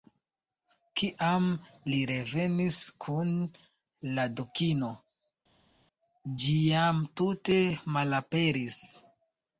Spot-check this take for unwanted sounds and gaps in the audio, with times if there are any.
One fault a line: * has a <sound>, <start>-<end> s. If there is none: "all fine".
all fine